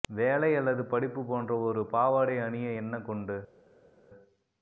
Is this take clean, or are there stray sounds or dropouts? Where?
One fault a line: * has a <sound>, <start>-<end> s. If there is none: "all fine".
all fine